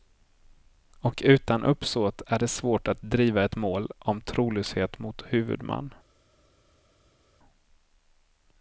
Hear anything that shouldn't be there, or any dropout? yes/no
no